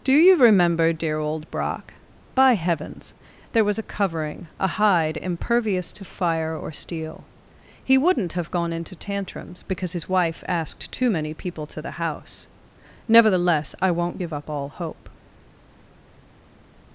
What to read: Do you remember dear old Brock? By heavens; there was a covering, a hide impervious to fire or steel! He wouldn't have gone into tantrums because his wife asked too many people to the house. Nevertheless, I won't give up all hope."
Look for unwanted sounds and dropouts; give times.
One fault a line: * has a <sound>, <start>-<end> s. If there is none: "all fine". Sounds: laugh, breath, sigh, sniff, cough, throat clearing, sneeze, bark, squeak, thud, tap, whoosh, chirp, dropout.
all fine